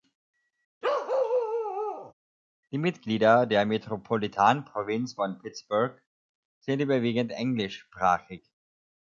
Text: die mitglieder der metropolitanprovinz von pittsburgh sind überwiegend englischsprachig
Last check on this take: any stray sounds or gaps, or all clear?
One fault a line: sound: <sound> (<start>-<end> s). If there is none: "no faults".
sound: bark (0.8-2.1 s)